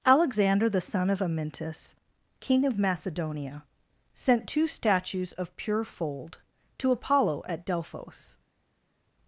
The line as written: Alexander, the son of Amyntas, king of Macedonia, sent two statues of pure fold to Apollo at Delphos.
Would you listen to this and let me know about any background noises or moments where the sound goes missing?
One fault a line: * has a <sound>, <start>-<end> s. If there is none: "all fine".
all fine